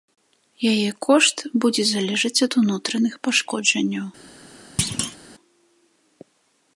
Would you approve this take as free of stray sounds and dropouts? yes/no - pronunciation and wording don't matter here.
no